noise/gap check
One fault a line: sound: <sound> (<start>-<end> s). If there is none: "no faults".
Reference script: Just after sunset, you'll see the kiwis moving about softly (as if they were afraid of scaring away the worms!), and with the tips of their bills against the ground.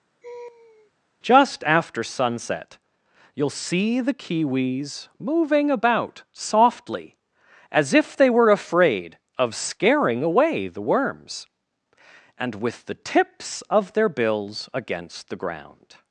sound: laugh (0.2-0.9 s)